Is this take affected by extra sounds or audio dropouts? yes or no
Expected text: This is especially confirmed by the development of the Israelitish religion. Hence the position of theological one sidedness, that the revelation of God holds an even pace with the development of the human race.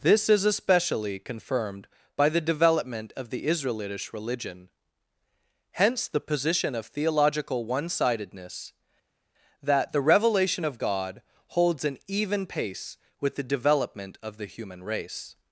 no